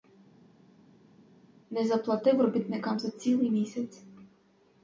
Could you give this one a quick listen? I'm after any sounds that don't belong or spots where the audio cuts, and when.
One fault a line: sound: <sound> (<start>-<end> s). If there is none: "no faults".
no faults